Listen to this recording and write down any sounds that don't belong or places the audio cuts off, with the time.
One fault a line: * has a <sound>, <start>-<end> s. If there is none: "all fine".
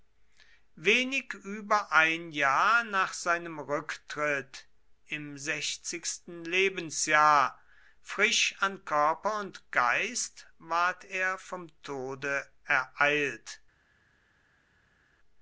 all fine